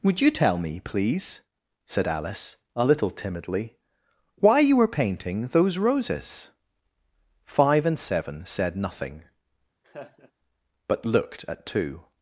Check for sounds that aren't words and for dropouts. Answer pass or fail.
fail